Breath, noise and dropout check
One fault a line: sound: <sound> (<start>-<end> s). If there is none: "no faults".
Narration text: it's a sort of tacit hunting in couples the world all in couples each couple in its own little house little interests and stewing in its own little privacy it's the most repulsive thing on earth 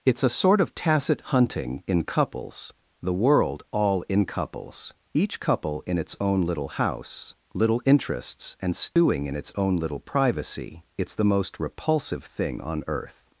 sound: dropout (8.9-9.0 s)